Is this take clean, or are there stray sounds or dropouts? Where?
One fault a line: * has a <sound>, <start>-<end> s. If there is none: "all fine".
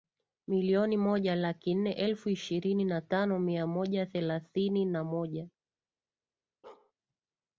* has a bark, 6.6-6.9 s